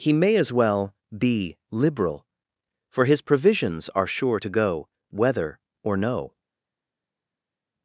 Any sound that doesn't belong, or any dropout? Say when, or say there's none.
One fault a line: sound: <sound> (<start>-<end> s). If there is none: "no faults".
no faults